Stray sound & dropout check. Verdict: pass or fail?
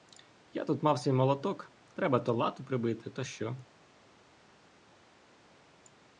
pass